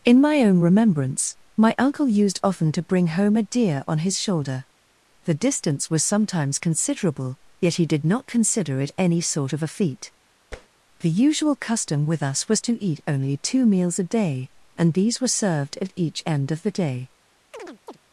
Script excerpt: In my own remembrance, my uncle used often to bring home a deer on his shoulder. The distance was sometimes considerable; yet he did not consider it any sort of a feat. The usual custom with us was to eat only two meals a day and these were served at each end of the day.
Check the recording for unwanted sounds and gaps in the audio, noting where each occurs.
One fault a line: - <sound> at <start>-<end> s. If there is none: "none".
- tap at 10.5-10.7 s
- chirp at 17.5-18.0 s